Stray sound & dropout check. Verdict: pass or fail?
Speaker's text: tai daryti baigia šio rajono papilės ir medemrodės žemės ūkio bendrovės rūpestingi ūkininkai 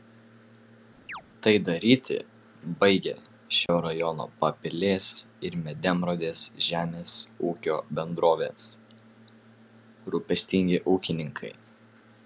fail